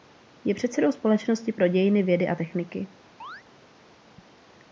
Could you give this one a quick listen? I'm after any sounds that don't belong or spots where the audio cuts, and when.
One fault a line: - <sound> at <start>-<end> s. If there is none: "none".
- chirp at 3.2-3.4 s